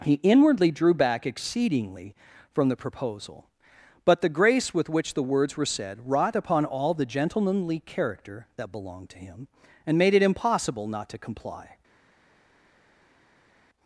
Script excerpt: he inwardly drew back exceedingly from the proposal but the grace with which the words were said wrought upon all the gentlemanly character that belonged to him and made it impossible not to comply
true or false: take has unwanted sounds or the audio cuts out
false